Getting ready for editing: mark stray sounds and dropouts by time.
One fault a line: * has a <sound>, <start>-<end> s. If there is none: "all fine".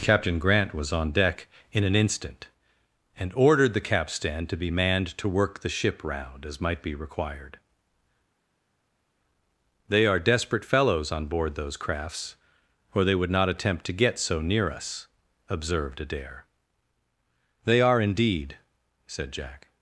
all fine